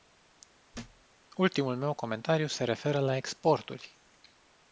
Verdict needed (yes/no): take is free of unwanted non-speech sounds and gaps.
no